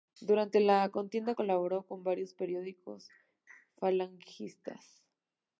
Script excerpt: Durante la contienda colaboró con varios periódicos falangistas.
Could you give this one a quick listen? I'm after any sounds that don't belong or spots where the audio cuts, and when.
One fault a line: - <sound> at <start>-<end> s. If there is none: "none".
none